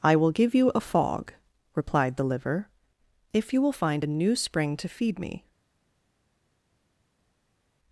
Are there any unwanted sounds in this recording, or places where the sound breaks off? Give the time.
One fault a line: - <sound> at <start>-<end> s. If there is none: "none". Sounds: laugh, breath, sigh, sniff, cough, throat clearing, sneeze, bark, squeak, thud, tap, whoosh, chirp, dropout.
none